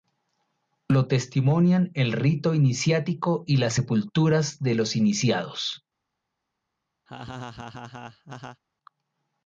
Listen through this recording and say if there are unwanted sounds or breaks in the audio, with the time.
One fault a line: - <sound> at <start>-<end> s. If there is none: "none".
- laugh at 7.1-8.6 s